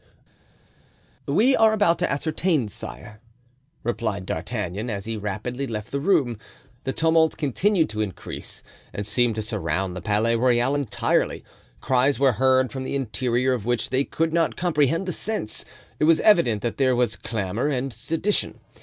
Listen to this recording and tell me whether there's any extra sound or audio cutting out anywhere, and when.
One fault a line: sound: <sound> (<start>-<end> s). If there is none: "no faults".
no faults